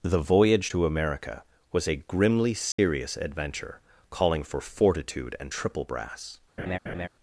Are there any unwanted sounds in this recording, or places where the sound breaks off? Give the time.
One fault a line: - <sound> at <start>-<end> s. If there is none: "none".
- dropout at 2.7-2.8 s
- laugh at 6.6-7.1 s